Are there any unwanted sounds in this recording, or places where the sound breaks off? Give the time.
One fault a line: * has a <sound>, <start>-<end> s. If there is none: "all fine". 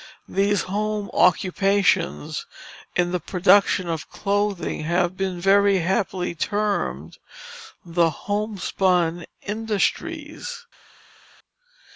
all fine